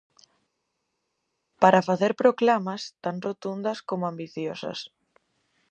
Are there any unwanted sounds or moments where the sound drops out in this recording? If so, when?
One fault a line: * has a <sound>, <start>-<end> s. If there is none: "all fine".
all fine